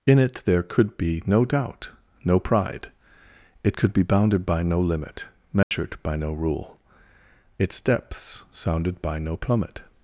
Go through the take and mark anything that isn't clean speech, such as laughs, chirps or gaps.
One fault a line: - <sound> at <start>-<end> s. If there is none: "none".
- dropout at 5.6-5.7 s